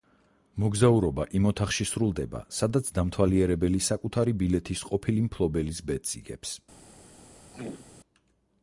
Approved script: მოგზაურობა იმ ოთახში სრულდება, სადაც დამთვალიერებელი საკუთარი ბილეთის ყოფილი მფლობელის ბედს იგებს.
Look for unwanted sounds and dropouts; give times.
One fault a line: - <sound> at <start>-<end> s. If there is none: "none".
- throat clearing at 7.5-7.9 s